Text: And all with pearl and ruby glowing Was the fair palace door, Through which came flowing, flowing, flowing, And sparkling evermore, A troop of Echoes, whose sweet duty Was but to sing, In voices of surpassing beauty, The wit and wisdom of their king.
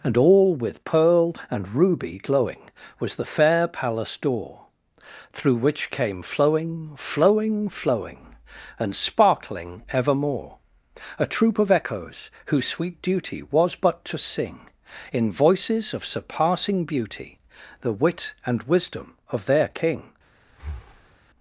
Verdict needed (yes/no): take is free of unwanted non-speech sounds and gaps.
no